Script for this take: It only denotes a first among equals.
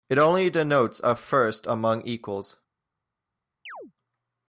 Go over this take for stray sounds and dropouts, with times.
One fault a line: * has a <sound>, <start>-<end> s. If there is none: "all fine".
* has a chirp, 3.7-3.9 s